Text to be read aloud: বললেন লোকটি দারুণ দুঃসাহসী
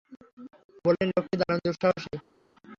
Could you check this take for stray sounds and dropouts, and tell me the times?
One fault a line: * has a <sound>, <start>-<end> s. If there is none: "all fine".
all fine